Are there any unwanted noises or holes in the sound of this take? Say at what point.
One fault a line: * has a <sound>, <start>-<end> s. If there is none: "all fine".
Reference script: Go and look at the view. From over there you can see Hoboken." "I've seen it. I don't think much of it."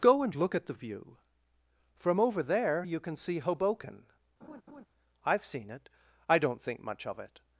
* has a laugh, 4.4-4.9 s